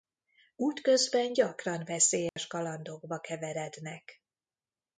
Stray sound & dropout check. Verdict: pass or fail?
fail